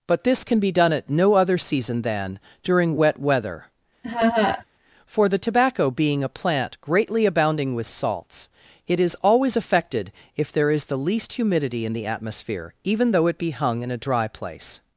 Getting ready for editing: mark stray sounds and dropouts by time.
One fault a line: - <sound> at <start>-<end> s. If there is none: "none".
- laugh at 4.0-4.6 s